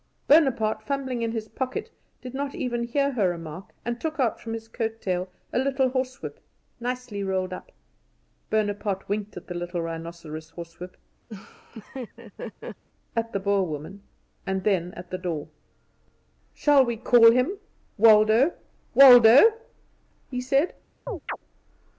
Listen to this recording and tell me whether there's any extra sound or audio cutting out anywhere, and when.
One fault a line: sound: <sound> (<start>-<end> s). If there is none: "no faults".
sound: laugh (11.3-12.8 s)
sound: chirp (21.1-21.4 s)